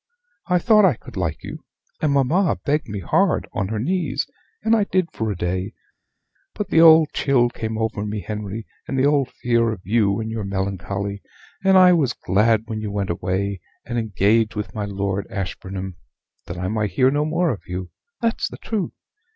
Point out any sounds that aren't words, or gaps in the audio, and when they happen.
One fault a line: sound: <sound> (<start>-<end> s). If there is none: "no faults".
no faults